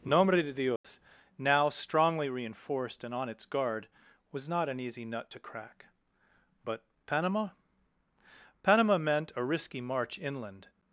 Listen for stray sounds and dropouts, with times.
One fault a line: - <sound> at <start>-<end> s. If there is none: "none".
- dropout at 0.8-0.8 s